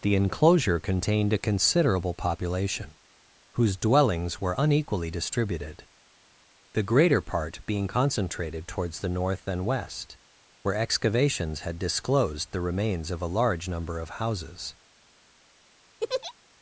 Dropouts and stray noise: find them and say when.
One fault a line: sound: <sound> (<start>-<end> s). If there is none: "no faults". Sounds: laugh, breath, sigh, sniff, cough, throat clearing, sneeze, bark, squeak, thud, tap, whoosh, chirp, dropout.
sound: laugh (16.0-16.3 s)